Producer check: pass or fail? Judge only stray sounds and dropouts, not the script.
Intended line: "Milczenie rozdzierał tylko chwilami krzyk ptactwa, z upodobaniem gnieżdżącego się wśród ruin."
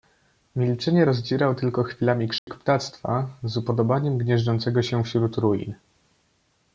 fail